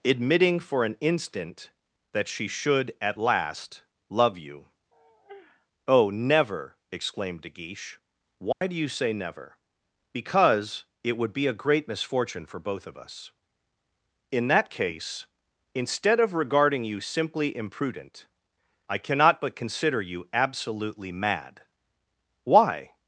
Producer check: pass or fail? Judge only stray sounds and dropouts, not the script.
fail